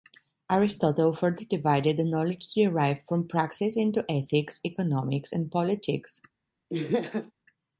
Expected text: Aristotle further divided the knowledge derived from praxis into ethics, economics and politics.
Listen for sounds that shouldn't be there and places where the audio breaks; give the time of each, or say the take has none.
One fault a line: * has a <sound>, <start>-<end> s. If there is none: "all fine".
* has a laugh, 6.7-7.3 s